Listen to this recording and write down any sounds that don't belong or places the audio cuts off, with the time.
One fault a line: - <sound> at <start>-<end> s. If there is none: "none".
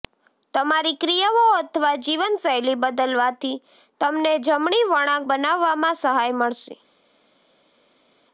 none